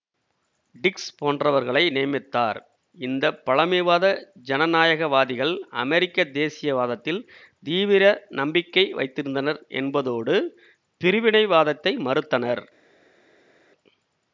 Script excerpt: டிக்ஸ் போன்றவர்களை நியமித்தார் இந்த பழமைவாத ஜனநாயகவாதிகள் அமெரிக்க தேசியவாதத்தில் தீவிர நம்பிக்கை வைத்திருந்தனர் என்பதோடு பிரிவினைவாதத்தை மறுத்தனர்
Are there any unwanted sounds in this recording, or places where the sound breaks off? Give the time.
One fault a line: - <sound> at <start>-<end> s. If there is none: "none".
none